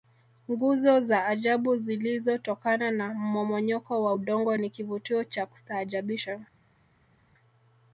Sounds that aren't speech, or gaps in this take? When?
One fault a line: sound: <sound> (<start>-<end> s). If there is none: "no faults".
no faults